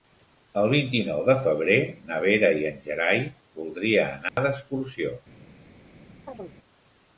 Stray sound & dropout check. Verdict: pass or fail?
fail